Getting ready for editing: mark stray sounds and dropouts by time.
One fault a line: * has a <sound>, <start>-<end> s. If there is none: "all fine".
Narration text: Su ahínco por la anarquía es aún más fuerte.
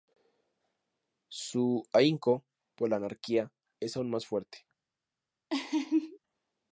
* has a laugh, 5.5-6.2 s